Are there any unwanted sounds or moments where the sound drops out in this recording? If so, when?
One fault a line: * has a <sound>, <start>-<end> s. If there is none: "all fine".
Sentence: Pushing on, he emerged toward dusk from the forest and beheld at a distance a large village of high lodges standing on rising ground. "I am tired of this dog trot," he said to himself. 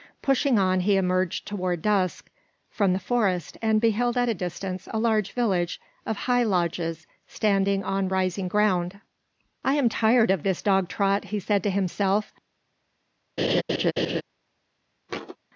* has a laugh, 13.4-14.2 s
* has a thud, 15.1-15.4 s